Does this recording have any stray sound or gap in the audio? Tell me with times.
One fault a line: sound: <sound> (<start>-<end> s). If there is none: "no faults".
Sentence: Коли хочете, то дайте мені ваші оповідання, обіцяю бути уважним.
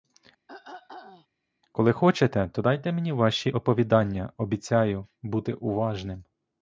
sound: throat clearing (0.5-1.3 s)